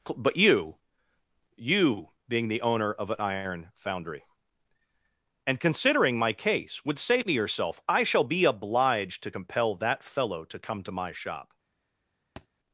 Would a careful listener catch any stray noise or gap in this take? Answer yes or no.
yes